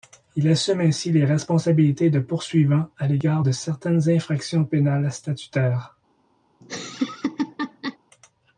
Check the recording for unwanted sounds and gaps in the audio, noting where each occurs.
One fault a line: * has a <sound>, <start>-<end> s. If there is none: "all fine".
* has a laugh, 6.6-8.0 s